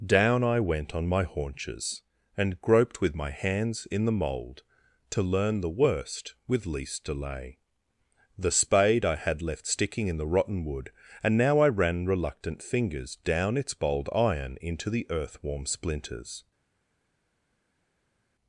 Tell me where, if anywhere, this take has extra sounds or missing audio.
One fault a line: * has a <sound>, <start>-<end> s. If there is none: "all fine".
all fine